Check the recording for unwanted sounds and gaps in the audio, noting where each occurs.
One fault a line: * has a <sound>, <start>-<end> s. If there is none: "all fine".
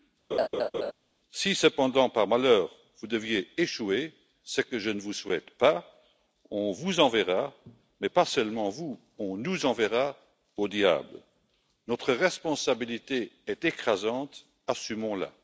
* has a laugh, 0.3-0.9 s